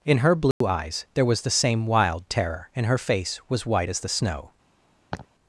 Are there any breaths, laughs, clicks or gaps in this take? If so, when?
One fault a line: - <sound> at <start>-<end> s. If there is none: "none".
- dropout at 0.5-0.6 s
- laugh at 5.1-5.3 s